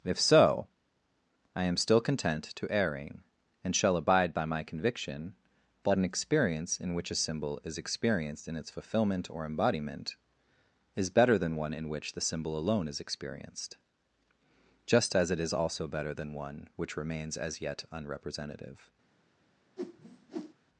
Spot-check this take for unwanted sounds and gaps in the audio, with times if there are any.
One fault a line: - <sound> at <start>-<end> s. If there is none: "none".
- whoosh at 19.8-20.5 s